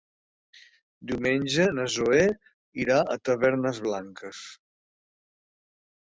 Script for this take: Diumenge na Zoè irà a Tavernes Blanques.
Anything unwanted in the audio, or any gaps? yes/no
no